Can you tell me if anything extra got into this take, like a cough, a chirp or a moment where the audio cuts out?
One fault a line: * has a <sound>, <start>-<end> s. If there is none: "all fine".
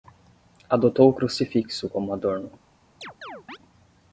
* has a chirp, 3.0-3.6 s